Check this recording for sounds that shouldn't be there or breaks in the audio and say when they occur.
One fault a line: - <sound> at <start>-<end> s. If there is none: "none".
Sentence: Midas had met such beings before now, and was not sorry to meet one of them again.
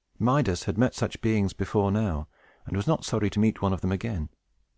none